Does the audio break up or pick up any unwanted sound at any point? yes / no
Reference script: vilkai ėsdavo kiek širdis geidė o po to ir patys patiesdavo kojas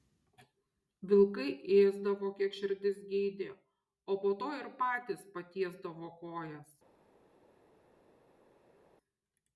no